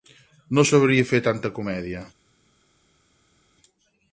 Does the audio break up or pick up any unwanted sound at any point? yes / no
no